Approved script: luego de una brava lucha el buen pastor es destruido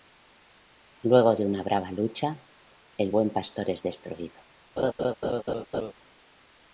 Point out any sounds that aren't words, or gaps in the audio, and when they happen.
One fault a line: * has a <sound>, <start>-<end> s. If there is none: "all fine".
* has a laugh, 4.8-5.9 s